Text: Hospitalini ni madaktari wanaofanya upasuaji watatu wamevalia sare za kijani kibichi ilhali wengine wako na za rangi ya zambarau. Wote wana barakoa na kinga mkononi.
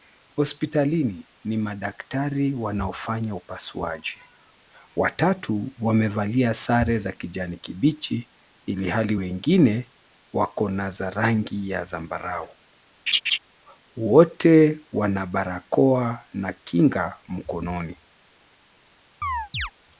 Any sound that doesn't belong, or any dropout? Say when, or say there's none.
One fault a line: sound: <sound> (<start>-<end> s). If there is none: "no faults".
sound: laugh (13.1-13.4 s)
sound: chirp (19.2-19.7 s)